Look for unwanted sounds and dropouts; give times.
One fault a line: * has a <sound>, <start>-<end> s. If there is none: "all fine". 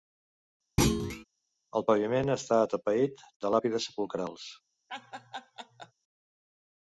* has a thud, 0.8-1.2 s
* has a laugh, 4.9-5.9 s